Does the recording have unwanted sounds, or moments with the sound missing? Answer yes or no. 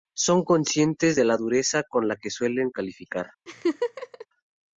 yes